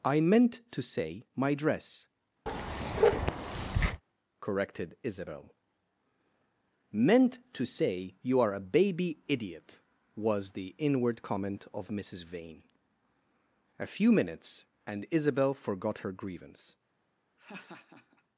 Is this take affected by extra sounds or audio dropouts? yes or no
yes